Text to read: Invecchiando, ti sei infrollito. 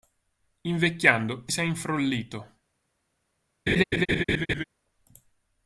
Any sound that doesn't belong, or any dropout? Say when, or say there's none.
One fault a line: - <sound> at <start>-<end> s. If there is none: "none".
- laugh at 3.7-4.6 s